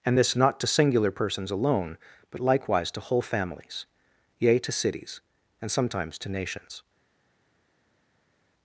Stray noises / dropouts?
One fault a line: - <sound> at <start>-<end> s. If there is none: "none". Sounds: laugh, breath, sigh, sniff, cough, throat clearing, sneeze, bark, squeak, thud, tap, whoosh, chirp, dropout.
none